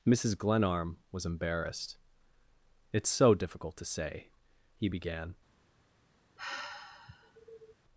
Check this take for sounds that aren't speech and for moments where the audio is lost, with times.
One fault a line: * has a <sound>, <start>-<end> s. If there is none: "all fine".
* has a sigh, 6.4-7.7 s